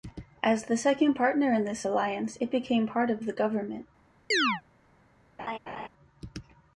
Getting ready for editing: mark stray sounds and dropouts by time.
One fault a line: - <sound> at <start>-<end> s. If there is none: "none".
- chirp at 4.3-4.6 s
- laugh at 5.4-5.9 s